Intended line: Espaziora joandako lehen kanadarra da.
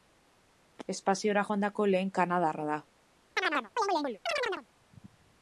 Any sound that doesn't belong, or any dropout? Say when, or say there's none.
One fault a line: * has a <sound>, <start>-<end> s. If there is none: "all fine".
* has a chirp, 3.4-4.7 s